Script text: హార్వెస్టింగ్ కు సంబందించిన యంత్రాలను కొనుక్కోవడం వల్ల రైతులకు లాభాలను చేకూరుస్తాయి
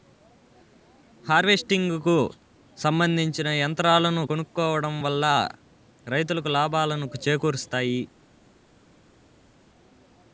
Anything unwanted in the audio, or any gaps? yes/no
no